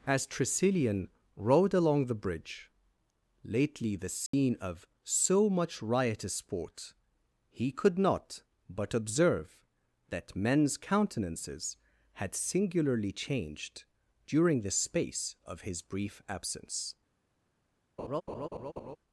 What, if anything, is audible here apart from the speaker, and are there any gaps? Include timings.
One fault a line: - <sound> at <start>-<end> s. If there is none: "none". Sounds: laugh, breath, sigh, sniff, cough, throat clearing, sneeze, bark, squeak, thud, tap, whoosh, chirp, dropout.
- dropout at 4.3-4.3 s
- laugh at 18.0-19.0 s